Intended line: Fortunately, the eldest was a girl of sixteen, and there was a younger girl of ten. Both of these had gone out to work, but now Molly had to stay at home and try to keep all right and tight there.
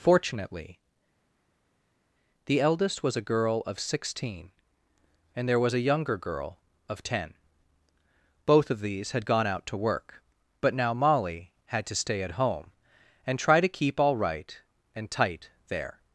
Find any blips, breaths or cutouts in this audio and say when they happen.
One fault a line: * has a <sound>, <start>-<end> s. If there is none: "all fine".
all fine